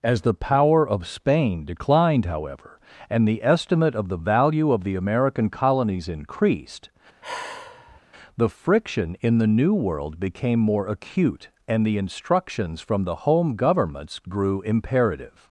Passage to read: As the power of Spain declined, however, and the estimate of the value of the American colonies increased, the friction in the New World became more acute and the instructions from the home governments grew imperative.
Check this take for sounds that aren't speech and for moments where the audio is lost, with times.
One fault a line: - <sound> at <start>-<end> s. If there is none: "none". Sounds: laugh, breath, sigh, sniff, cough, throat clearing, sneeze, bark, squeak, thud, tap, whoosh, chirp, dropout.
- sigh at 7.2-8.0 s